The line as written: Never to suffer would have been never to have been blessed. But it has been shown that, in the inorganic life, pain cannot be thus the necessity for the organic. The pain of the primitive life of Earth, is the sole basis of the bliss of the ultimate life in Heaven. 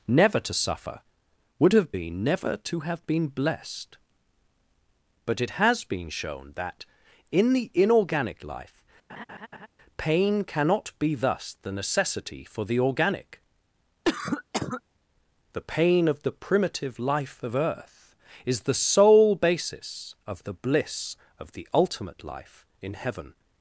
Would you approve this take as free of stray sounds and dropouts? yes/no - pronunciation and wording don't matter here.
no